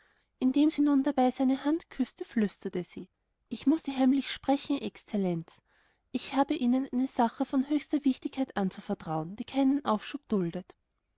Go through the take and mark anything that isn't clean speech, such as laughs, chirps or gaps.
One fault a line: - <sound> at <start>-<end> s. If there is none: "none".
none